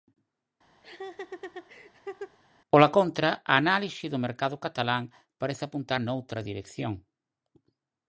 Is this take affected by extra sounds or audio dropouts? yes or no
yes